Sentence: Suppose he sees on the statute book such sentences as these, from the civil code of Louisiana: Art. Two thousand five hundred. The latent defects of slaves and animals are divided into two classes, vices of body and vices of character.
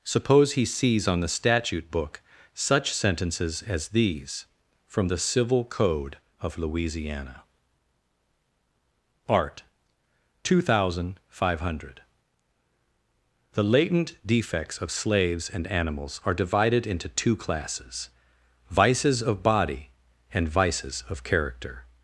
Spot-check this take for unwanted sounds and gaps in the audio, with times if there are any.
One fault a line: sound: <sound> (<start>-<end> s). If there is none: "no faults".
no faults